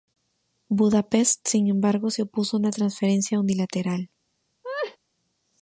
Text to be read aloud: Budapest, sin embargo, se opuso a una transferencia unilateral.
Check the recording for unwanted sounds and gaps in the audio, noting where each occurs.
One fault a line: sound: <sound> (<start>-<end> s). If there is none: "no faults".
sound: laugh (4.6-5.0 s)